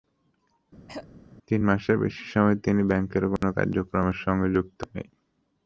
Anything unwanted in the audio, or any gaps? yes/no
yes